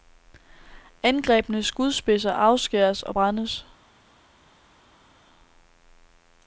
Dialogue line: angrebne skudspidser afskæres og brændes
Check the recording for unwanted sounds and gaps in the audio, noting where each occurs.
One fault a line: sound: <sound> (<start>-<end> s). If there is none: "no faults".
no faults